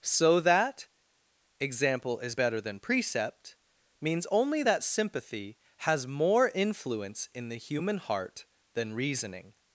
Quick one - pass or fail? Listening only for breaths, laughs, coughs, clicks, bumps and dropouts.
pass